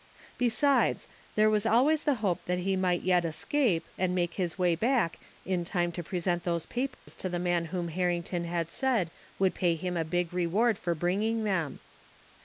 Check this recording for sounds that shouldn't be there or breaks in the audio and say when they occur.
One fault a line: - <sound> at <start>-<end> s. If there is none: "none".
- dropout at 6.9-7.1 s